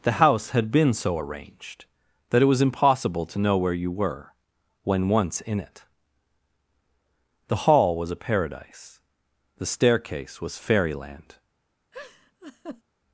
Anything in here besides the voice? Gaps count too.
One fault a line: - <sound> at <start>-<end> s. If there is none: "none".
- laugh at 11.9-12.8 s